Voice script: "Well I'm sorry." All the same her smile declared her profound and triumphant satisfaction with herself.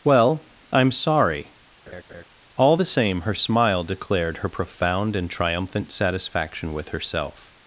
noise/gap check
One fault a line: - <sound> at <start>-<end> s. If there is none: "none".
- laugh at 1.9-2.2 s